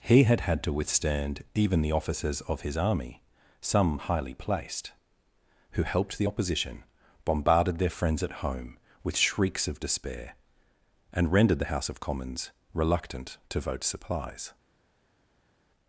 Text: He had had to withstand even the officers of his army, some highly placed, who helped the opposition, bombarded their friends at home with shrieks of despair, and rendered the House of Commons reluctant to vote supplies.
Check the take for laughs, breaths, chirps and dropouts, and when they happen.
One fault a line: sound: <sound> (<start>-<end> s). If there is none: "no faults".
no faults